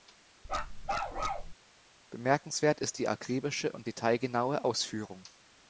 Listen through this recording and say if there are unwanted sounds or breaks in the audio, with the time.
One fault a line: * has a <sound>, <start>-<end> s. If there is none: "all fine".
* has a bark, 0.4-1.5 s